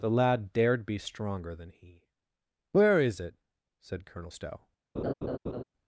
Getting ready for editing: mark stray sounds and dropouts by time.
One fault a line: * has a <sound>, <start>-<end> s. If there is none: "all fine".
* has a laugh, 5.0-5.6 s